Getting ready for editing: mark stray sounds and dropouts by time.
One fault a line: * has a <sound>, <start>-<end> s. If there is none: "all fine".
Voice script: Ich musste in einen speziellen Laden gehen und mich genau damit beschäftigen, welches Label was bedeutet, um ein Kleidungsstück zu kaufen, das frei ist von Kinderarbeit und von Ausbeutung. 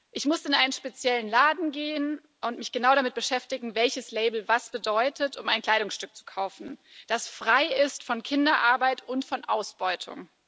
all fine